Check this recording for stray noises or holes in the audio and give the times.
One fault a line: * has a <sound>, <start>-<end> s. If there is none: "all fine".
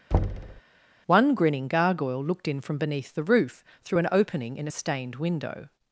* has a thud, 0.1-0.6 s